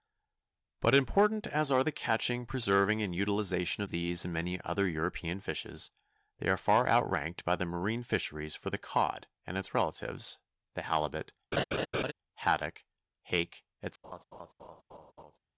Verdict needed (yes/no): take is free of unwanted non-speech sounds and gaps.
no